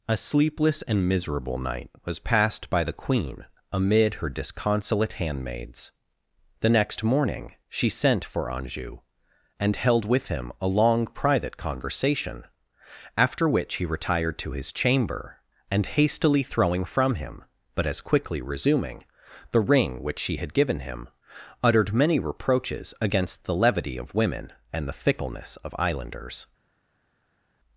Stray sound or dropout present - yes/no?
no